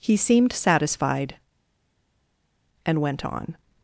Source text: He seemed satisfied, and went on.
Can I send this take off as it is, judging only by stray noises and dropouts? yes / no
yes